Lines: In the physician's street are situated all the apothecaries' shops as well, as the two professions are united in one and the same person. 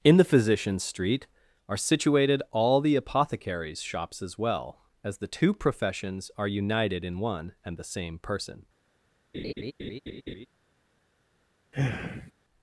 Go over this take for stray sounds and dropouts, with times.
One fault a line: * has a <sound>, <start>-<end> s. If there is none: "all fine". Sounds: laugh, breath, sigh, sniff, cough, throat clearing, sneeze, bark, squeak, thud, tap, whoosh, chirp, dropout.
* has a laugh, 9.3-10.5 s
* has a sigh, 11.7-12.3 s